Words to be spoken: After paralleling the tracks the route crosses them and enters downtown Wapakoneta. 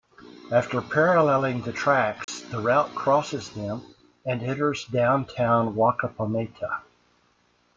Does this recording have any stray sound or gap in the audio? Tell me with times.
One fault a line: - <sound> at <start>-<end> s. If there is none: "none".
- dropout at 2.2-2.3 s